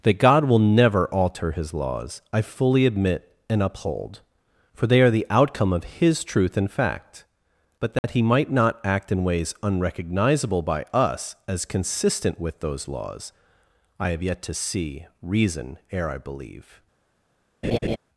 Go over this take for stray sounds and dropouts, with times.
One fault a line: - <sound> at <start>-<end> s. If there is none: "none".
- dropout at 8.0-8.0 s
- laugh at 17.6-18.0 s